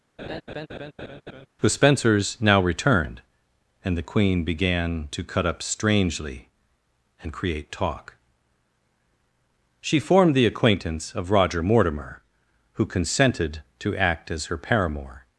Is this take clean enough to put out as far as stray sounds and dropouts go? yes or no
no